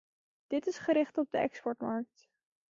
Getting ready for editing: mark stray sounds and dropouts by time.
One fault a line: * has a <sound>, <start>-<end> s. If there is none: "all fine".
all fine